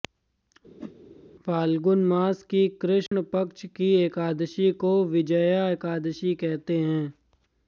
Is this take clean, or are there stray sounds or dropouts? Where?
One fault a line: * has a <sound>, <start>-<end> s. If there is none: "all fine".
* has a whoosh, 0.8-0.9 s
* has a dropout, 3.1-3.1 s